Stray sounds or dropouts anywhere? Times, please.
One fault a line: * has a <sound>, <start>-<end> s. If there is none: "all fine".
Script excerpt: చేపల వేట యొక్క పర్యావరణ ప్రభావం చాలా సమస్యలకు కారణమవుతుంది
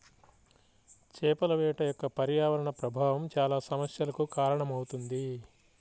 all fine